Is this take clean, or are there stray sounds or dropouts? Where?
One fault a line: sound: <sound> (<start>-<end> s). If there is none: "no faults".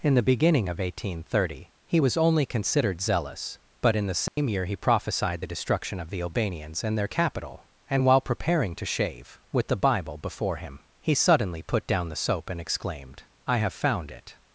sound: dropout (4.3-4.4 s)